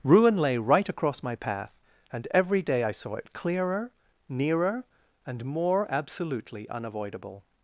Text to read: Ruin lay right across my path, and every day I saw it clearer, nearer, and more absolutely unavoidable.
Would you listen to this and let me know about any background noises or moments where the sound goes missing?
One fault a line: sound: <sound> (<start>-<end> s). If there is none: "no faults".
no faults